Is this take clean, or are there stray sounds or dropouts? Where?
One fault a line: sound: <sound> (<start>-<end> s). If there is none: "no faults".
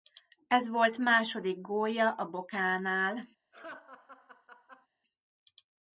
sound: laugh (3.5-4.9 s)